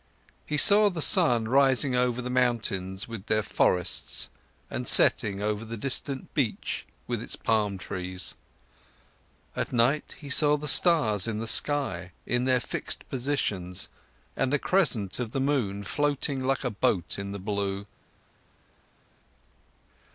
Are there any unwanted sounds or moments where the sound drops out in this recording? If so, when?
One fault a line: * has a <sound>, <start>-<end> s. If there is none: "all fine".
all fine